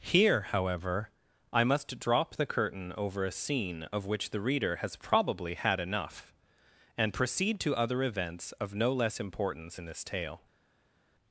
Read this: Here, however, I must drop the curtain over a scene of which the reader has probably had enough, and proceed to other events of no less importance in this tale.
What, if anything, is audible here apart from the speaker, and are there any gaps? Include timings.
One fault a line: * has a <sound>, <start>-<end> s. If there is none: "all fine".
all fine